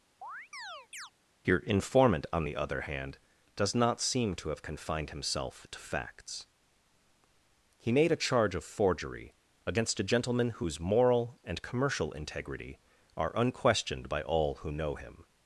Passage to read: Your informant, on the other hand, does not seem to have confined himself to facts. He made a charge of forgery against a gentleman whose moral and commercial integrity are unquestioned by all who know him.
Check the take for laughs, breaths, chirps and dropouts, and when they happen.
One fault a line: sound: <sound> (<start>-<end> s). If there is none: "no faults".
sound: chirp (0.2-1.1 s)